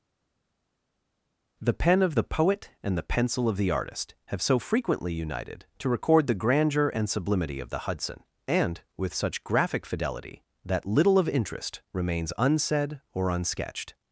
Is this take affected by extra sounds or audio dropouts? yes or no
no